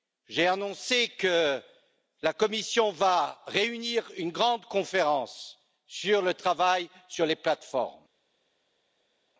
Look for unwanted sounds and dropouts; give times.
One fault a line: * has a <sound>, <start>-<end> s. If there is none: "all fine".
all fine